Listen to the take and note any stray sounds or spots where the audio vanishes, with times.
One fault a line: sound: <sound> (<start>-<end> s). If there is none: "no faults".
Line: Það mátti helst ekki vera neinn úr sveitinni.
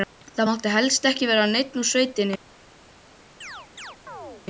sound: chirp (3.4-4.5 s)